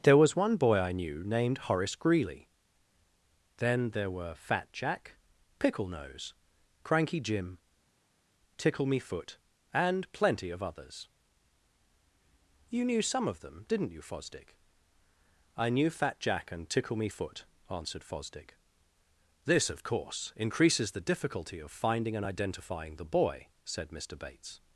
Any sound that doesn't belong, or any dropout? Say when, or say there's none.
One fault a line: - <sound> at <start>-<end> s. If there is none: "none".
none